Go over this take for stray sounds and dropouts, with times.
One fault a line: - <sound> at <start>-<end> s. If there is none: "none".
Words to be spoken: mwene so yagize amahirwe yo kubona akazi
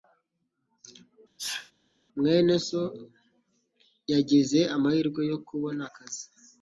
- sneeze at 1.4-1.7 s